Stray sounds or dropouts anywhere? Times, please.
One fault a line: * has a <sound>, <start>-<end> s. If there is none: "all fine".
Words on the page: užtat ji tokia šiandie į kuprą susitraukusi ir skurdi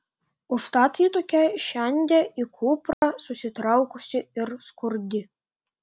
* has a dropout, 2.9-3.0 s